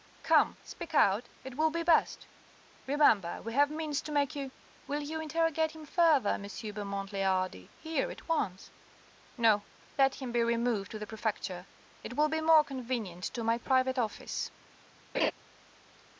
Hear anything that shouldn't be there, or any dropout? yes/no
yes